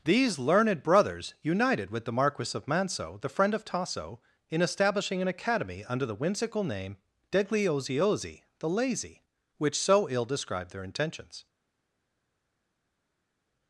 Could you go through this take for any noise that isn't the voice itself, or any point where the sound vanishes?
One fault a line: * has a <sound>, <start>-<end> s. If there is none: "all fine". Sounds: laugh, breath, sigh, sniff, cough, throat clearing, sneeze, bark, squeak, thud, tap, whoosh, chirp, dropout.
all fine